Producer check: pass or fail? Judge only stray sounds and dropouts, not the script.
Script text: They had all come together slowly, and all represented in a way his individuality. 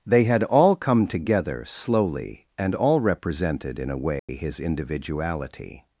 fail